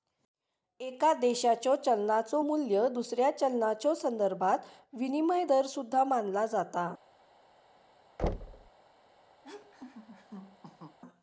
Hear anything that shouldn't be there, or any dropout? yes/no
yes